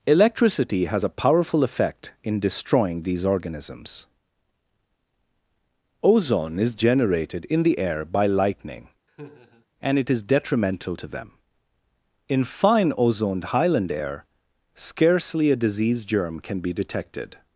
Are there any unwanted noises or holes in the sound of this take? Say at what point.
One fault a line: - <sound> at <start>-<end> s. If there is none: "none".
- laugh at 9.1-9.7 s